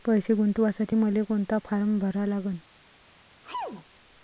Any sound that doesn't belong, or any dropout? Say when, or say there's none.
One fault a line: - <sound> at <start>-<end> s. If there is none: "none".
- sneeze at 3.4-3.8 s